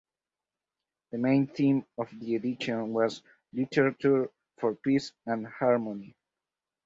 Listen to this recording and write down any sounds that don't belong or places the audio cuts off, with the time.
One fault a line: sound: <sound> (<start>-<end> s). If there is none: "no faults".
no faults